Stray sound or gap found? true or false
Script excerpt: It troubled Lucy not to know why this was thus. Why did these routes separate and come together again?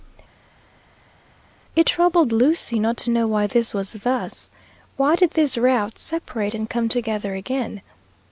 false